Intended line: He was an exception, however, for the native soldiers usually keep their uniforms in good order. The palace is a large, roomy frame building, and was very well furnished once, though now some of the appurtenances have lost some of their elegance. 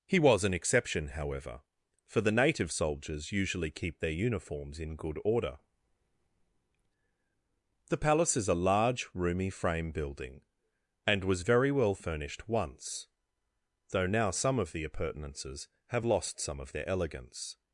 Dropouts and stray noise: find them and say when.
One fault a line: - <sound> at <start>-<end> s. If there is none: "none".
none